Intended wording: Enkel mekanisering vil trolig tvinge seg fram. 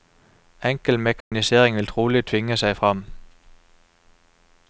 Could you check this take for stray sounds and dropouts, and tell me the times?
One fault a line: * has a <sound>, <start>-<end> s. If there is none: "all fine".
* has a dropout, 1.2-1.3 s